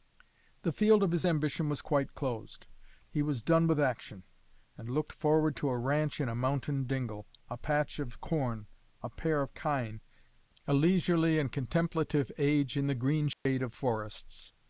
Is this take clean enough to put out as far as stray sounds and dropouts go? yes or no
no